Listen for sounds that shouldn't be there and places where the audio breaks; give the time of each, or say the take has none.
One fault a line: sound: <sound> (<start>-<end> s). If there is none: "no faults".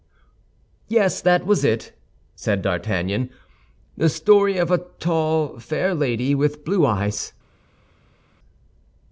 no faults